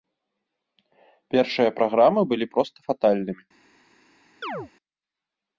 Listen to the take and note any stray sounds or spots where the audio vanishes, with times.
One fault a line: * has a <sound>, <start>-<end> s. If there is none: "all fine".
* has a chirp, 4.4-4.7 s